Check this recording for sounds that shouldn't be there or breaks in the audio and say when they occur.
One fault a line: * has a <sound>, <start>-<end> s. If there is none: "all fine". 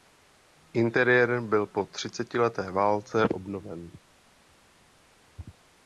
all fine